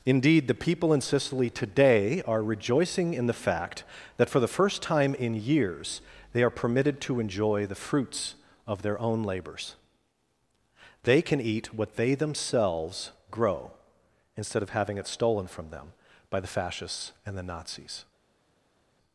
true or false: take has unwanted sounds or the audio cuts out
false